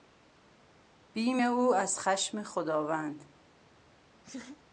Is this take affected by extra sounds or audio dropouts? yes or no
yes